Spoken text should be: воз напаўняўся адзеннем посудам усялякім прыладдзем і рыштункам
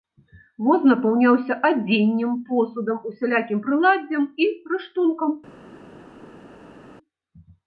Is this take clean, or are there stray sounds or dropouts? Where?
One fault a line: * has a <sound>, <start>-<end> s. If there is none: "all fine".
all fine